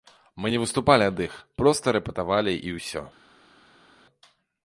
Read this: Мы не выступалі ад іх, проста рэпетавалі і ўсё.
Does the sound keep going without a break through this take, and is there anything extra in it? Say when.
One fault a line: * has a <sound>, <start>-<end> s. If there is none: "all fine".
all fine